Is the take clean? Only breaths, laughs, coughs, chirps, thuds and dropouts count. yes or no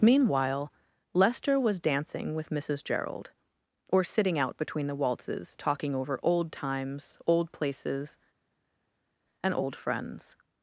yes